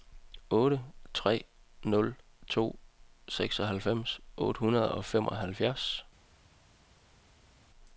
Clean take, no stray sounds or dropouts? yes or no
yes